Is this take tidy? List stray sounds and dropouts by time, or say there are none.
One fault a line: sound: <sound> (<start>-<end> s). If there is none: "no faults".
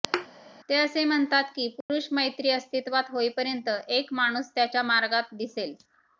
sound: thud (0.1-0.3 s)
sound: dropout (1.8-1.9 s)